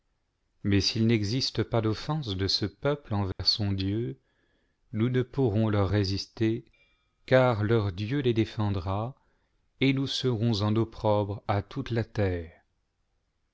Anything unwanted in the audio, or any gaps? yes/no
yes